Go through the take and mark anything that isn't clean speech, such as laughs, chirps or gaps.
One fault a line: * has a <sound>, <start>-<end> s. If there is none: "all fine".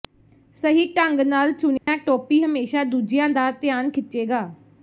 * has a dropout, 1.8-1.9 s